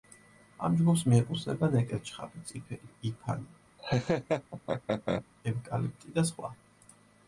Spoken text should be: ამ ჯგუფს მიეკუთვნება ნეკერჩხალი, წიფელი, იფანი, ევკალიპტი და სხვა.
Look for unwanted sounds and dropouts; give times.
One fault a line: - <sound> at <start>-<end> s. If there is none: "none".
- laugh at 3.8-5.3 s